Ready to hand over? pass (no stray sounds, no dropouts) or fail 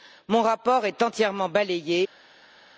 pass